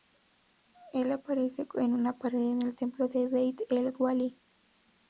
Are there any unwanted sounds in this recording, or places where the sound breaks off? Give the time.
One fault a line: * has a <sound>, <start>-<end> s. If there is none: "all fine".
all fine